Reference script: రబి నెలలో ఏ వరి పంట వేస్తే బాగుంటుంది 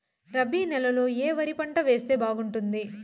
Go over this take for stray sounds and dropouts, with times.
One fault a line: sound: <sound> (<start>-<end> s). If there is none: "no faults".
no faults